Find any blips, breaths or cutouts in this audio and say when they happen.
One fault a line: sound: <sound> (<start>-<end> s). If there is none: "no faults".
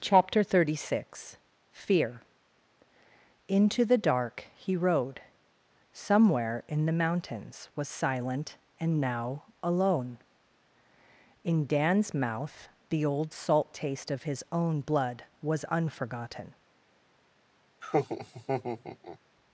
sound: laugh (17.8-19.2 s)